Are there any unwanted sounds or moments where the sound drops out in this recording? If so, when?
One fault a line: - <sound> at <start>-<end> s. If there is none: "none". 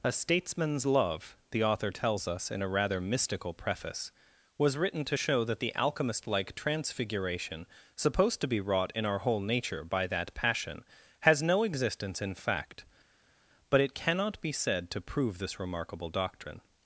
none